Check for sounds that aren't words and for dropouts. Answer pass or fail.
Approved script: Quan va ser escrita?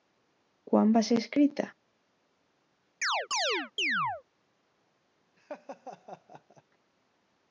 fail